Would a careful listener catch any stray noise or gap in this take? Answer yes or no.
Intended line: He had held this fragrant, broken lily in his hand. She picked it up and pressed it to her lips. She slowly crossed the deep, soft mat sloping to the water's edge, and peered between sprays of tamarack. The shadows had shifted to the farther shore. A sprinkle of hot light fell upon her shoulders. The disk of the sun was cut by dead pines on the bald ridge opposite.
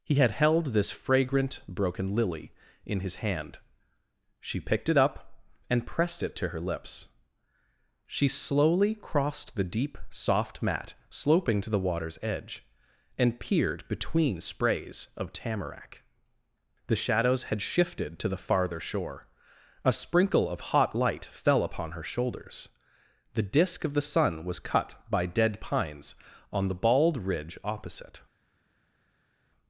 no